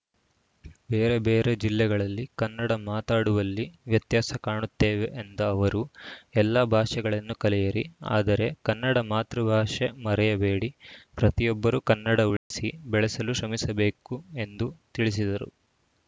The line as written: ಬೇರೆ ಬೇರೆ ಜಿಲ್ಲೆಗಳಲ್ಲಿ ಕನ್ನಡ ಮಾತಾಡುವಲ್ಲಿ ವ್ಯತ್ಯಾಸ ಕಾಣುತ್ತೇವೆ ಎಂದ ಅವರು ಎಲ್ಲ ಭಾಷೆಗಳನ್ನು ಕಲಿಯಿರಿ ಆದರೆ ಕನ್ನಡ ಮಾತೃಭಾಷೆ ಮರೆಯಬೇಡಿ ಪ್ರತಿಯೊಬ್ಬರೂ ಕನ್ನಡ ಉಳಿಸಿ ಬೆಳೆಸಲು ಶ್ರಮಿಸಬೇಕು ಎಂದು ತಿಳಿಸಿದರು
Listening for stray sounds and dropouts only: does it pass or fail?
fail